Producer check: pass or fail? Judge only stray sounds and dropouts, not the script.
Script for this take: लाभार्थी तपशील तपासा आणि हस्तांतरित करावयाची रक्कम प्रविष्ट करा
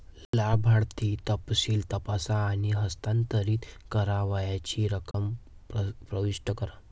fail